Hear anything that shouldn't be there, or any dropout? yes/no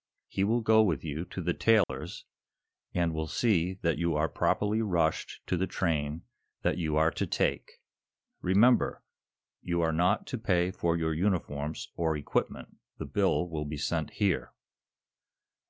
yes